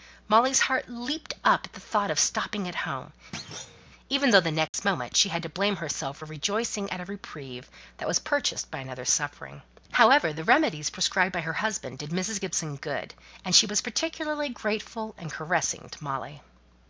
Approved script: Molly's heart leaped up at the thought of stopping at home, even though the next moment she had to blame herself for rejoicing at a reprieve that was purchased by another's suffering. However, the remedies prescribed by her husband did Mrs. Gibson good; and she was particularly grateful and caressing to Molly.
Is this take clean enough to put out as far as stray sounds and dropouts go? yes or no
no